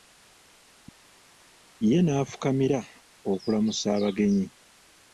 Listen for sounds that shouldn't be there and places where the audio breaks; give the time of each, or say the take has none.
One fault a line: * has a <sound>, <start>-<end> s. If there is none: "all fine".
all fine